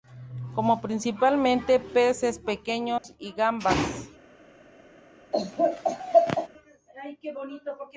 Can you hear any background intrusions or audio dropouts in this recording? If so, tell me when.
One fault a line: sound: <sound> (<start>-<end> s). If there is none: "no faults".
sound: dropout (3.0-3.0 s)
sound: laugh (5.3-6.5 s)